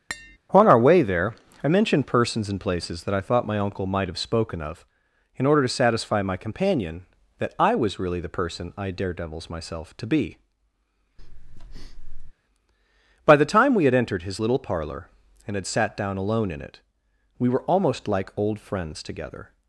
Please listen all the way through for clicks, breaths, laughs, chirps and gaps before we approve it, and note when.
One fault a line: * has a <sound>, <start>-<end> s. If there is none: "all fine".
* has a tap, 0.1-0.4 s
* has a breath, 11.2-12.3 s